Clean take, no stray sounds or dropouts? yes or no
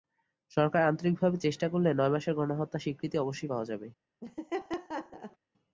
no